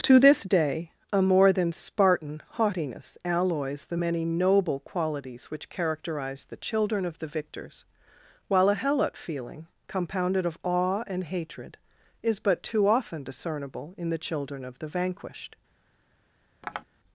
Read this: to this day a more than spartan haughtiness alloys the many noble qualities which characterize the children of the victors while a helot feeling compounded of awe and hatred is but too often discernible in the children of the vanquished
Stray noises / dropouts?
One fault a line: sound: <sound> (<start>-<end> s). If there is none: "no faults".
sound: tap (16.6-16.8 s)